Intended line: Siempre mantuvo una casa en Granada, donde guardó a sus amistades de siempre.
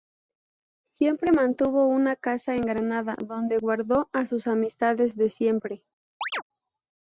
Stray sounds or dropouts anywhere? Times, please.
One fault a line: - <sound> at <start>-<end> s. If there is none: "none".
- chirp at 6.2-6.4 s